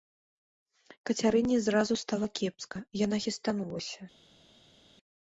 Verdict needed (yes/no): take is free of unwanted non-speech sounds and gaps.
yes